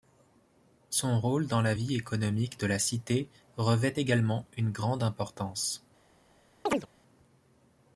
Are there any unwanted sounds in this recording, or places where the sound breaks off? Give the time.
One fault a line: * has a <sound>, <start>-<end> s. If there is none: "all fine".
* has a chirp, 6.7-6.9 s